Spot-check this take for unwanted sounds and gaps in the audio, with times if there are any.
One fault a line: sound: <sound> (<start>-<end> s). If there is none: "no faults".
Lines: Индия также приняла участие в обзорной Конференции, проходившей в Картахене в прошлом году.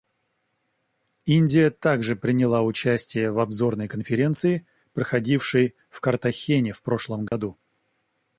sound: dropout (7.3-7.3 s)